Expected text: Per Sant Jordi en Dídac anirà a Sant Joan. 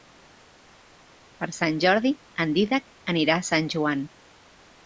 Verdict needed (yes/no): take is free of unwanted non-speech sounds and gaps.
yes